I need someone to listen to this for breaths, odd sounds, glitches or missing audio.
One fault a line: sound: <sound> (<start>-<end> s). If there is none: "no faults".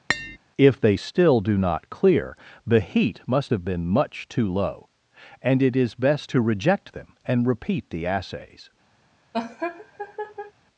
sound: tap (0.1-0.4 s)
sound: laugh (9.3-10.5 s)